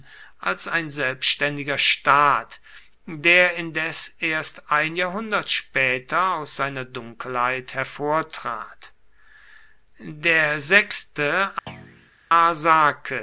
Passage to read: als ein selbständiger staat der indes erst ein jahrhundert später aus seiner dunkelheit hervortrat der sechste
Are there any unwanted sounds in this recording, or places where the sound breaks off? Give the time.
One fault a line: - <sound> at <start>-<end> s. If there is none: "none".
- thud at 11.7-12.1 s